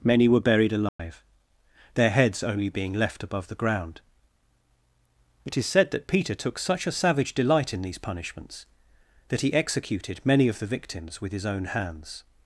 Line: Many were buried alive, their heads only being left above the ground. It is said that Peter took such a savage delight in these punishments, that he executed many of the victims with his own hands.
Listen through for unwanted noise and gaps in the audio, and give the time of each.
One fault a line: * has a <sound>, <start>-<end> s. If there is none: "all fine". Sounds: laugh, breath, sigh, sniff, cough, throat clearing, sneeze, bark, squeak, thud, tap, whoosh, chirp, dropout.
* has a dropout, 0.9-1.0 s